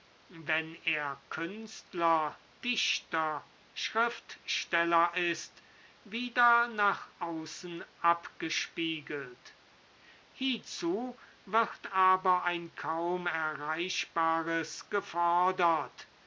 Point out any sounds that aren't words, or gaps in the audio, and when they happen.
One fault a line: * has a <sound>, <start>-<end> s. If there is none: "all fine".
all fine